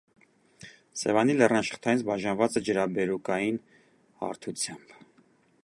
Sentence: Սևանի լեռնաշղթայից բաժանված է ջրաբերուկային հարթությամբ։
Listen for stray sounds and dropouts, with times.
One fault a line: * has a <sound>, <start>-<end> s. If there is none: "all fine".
all fine